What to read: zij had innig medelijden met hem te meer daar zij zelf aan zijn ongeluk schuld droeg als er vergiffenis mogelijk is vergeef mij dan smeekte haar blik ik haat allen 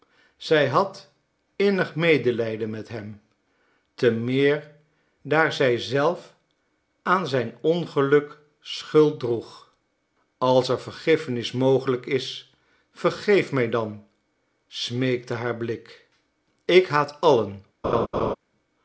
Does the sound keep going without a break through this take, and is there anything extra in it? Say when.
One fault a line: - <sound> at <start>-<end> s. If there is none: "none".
- laugh at 17.8-18.4 s